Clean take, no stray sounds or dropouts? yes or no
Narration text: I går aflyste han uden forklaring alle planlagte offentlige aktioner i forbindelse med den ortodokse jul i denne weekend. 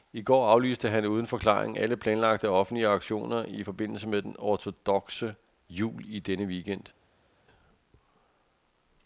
yes